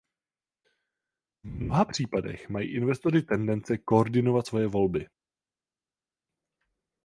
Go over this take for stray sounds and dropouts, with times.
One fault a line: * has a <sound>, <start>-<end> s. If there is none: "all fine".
all fine